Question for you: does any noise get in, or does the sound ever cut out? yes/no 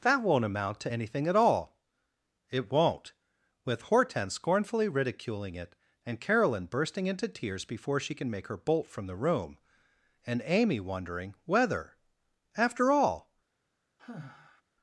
yes